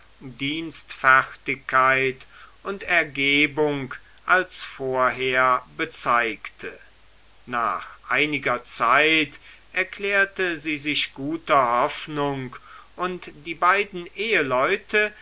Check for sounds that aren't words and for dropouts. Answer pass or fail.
pass